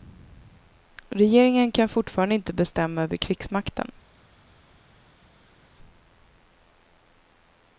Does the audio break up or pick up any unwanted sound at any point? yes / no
no